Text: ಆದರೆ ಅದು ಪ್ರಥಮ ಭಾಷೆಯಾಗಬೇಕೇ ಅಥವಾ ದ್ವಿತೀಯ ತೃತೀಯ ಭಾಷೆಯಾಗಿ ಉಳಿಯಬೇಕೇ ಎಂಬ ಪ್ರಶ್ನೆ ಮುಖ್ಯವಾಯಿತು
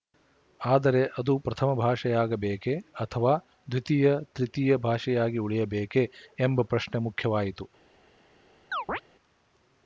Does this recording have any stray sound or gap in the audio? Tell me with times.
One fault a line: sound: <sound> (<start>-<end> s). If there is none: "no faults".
sound: chirp (8.7-9.0 s)